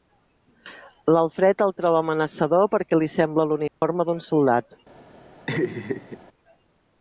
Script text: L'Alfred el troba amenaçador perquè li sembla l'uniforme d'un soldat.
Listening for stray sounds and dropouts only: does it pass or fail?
fail